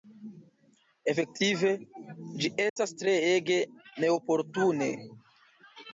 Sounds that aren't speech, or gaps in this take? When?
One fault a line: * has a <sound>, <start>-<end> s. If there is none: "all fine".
* has a dropout, 2.7-2.8 s